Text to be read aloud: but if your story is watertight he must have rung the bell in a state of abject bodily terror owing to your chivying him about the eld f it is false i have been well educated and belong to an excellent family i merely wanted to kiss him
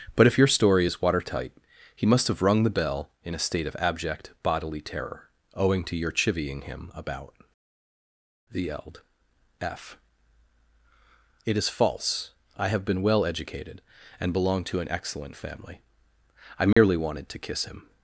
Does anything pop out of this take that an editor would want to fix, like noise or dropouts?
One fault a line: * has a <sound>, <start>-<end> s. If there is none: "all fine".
* has a dropout, 16.7-16.8 s